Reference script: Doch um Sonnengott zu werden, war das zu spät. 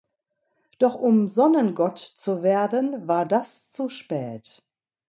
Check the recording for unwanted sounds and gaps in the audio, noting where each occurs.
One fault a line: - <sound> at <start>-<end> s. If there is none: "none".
none